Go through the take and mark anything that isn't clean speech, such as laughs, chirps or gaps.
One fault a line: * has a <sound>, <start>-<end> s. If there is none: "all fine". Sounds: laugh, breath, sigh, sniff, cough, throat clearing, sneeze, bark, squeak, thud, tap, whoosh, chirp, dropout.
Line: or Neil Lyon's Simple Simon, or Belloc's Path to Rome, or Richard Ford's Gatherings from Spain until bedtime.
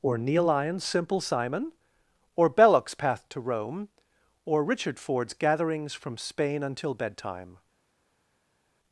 all fine